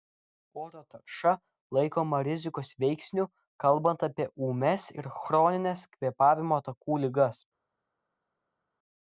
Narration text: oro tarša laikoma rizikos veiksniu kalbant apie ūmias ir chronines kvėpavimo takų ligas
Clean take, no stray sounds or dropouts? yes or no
yes